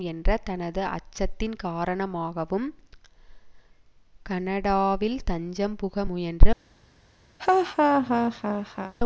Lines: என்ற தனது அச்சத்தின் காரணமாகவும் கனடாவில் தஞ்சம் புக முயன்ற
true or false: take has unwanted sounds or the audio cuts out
true